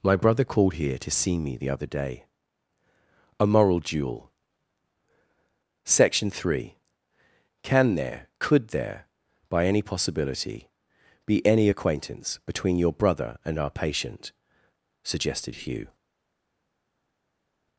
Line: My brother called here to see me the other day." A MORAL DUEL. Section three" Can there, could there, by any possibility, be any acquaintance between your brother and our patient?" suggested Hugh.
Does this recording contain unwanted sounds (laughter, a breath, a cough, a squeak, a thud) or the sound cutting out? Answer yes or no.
no